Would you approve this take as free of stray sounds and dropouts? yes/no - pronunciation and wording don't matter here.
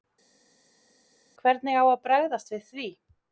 yes